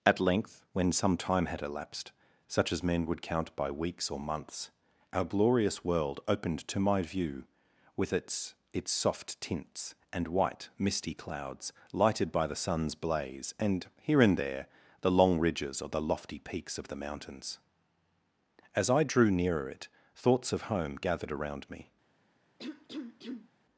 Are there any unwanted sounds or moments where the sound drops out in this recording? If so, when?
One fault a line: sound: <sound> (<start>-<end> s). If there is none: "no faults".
sound: cough (22.6-23.5 s)